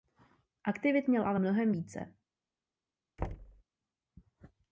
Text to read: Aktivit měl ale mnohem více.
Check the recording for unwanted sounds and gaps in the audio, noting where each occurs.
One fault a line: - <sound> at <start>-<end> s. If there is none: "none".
- thud at 3.2-3.6 s